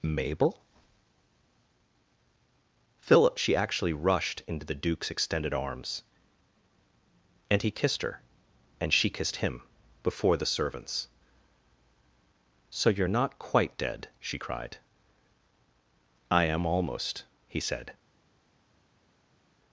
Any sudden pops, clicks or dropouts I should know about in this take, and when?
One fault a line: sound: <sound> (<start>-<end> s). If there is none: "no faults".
no faults